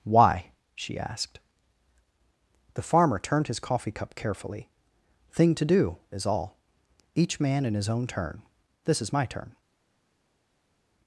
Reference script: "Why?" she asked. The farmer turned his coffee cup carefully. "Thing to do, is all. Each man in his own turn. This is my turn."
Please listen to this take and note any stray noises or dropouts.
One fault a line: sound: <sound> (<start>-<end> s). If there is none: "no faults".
no faults